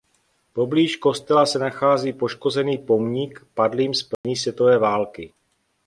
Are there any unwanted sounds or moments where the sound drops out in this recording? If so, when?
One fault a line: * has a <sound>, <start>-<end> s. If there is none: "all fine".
* has a dropout, 4.1-4.2 s